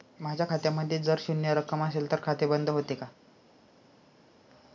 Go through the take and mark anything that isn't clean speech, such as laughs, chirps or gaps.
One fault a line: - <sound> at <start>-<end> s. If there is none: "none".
none